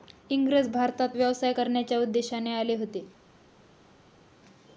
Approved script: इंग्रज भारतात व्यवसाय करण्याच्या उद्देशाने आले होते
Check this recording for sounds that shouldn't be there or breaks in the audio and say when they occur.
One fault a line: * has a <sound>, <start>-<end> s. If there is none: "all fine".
all fine